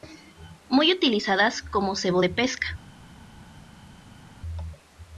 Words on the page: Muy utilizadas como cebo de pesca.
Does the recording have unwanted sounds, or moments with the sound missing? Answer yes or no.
no